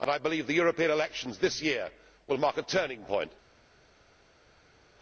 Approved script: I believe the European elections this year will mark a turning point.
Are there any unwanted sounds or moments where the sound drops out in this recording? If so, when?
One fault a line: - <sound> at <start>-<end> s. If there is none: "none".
none